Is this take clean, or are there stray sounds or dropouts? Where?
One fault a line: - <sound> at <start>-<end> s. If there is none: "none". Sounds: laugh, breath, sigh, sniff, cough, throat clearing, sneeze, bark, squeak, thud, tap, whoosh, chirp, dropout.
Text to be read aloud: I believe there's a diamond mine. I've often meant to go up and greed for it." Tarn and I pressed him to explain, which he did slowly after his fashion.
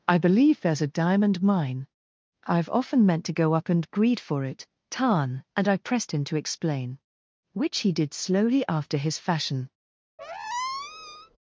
- squeak at 10.2-11.4 s